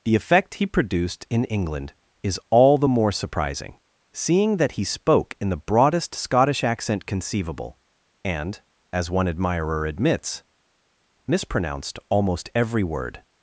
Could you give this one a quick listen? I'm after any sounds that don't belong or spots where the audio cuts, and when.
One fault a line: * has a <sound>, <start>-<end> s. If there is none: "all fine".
all fine